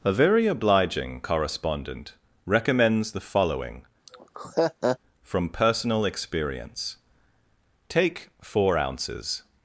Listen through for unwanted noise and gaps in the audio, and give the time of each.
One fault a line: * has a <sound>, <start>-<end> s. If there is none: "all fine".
* has a laugh, 4.1-5.0 s